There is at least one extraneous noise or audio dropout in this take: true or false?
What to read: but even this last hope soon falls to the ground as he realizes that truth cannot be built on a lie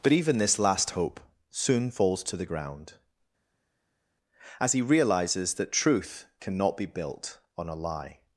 false